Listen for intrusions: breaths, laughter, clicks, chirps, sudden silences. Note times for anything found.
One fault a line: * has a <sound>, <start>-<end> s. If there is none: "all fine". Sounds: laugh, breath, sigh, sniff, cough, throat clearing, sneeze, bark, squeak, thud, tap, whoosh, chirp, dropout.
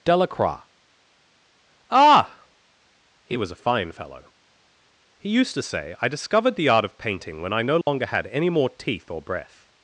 * has a dropout, 7.8-7.9 s